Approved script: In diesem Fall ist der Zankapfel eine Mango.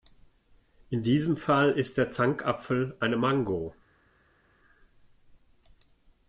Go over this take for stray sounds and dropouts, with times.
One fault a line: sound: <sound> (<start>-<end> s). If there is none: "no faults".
no faults